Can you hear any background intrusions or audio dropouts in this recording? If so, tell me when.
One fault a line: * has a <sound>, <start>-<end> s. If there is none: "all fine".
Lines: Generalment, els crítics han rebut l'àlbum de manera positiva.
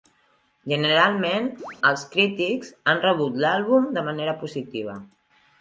* has a chirp, 1.6-1.8 s